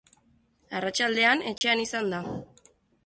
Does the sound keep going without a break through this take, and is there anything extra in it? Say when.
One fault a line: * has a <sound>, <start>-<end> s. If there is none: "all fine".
* has a dropout, 1.6-1.6 s